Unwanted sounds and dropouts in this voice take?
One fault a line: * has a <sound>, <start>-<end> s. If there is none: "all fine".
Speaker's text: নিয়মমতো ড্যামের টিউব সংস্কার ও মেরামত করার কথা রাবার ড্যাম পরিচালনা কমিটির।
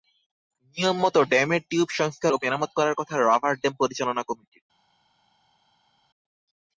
all fine